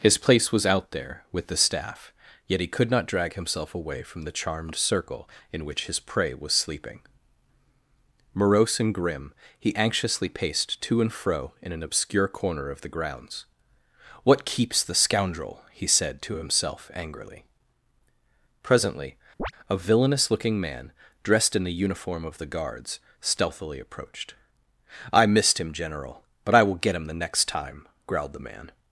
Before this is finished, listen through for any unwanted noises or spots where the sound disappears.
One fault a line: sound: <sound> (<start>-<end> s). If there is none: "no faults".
sound: chirp (19.4-19.5 s)